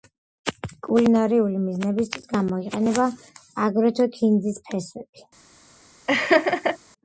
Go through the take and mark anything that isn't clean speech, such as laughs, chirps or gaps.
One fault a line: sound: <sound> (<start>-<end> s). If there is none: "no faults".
sound: laugh (6.1-6.8 s)